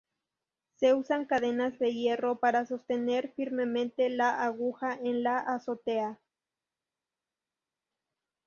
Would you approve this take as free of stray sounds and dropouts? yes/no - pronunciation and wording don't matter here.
yes